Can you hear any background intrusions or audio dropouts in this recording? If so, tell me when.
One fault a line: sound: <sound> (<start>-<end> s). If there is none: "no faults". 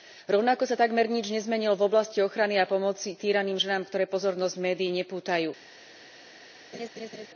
sound: laugh (6.7-7.3 s)